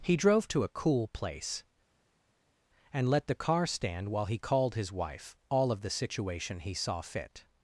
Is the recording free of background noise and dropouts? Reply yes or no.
yes